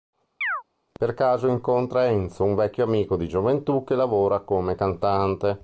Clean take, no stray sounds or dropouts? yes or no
no